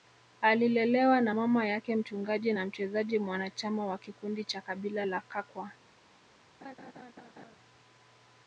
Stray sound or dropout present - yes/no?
yes